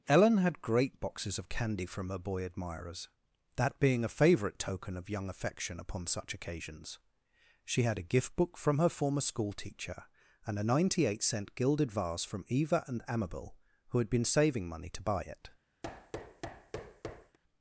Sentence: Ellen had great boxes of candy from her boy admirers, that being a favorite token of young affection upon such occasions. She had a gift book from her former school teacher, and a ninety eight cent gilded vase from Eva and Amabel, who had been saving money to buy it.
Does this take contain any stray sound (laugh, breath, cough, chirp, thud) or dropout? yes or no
yes